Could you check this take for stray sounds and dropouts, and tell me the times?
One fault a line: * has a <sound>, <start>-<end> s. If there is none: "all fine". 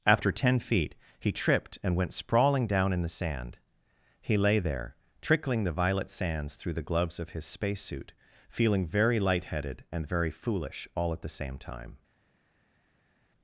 all fine